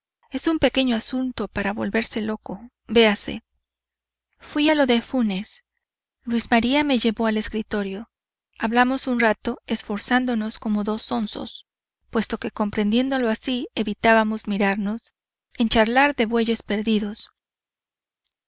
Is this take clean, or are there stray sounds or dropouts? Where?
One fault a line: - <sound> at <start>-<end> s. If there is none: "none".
none